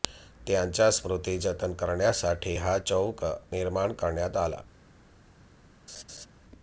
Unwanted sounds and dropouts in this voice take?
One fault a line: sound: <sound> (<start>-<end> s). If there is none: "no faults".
sound: laugh (5.9-6.3 s)